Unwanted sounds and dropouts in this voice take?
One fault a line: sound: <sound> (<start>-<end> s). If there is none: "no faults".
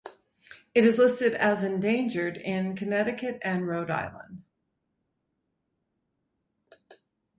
no faults